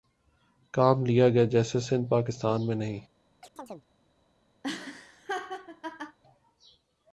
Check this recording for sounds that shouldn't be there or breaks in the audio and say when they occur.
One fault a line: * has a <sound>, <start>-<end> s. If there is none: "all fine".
* has a chirp, 3.4-3.9 s
* has a laugh, 4.6-6.2 s